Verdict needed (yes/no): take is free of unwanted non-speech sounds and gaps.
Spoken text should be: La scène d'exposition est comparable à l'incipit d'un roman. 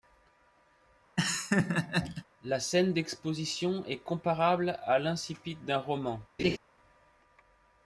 no